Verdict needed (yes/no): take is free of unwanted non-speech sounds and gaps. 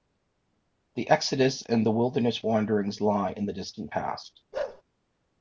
no